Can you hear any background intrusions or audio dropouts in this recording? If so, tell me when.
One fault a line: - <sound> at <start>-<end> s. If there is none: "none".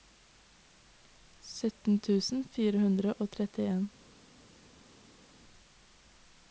none